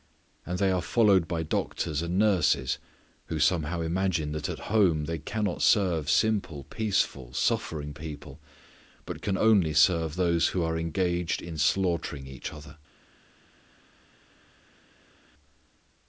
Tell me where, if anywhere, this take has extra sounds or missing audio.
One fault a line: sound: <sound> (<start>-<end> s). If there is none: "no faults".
no faults